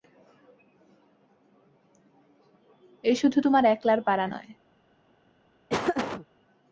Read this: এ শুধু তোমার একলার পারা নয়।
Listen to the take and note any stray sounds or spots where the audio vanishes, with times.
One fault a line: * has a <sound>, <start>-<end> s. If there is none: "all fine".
* has a laugh, 5.7-6.3 s